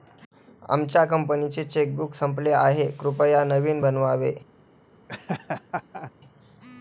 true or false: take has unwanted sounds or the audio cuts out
true